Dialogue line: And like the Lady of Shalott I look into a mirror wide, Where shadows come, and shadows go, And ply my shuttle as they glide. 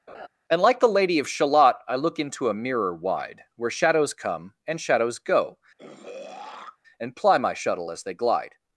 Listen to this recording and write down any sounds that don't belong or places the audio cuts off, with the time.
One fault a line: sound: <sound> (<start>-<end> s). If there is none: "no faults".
sound: laugh (0.1-0.3 s)
sound: throat clearing (5.8-6.8 s)